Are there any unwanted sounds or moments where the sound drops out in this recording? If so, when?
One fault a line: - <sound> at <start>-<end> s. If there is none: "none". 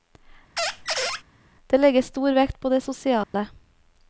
- squeak at 0.6-1.2 s
- dropout at 3.2-3.3 s